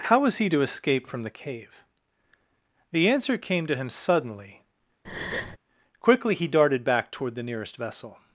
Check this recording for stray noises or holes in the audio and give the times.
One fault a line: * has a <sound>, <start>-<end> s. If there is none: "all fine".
* has a breath, 5.0-5.6 s